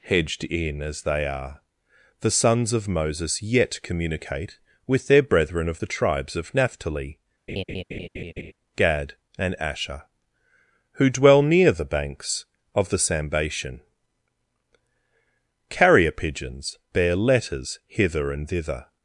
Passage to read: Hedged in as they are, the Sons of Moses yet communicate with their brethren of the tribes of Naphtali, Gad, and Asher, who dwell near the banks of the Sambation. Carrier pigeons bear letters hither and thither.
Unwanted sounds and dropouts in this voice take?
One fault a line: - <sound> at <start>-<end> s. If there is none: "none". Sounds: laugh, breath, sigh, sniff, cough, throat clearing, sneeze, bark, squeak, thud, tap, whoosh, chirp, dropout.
- laugh at 7.5-8.5 s